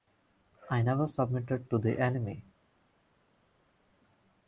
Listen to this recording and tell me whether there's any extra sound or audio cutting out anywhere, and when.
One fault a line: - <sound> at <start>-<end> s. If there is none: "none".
none